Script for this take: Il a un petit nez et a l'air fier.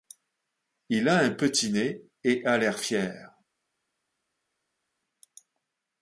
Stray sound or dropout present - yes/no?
no